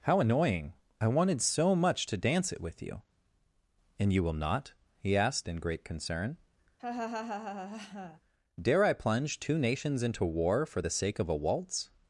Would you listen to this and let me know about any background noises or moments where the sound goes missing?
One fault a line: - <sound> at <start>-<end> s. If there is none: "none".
- laugh at 6.8-8.2 s